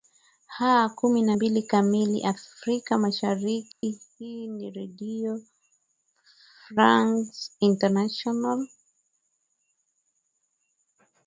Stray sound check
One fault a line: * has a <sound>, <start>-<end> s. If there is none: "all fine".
* has a dropout, 3.7-3.8 s